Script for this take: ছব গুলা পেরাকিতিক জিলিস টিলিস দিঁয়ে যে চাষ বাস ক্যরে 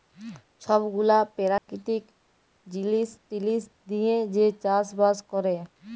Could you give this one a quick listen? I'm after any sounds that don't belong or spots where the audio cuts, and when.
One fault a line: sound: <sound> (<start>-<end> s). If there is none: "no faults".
sound: dropout (1.6-1.7 s)